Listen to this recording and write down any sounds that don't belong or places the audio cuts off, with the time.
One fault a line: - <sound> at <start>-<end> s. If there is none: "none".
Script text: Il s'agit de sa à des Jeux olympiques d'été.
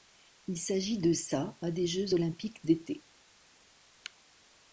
none